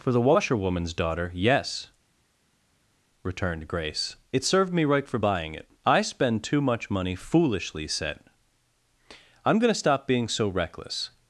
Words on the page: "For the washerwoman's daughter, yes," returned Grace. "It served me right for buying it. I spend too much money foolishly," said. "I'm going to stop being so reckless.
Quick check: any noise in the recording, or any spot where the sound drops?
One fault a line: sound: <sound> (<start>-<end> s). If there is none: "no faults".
no faults